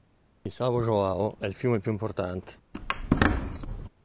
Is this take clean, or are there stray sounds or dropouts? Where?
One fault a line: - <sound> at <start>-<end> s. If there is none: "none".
- squeak at 2.7-3.9 s